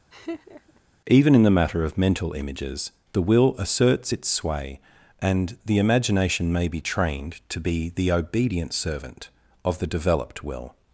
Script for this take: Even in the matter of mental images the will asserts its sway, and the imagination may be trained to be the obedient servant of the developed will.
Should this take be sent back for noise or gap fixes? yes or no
yes